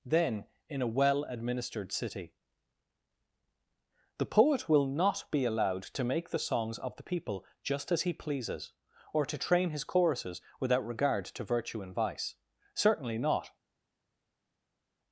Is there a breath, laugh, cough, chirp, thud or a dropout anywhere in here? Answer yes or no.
no